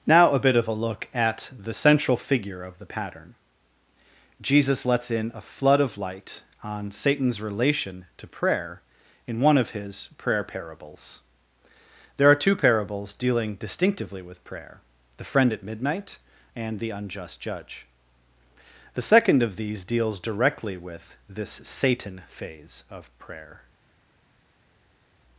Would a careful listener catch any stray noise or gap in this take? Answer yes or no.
no